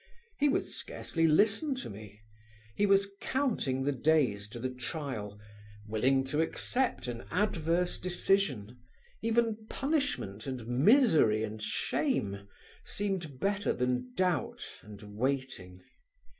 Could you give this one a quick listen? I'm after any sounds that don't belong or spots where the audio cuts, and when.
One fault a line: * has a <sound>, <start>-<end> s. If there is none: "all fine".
all fine